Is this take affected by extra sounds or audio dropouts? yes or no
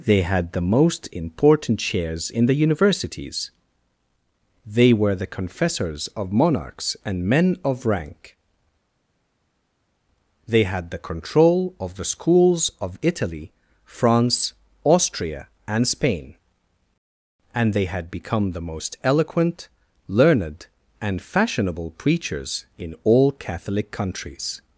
no